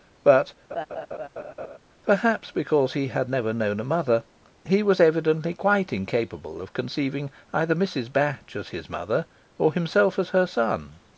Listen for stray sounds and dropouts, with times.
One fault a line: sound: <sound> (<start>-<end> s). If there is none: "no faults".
sound: laugh (0.7-1.8 s)